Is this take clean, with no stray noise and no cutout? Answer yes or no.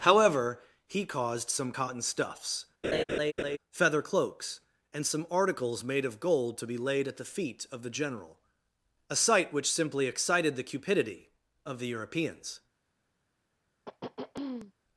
no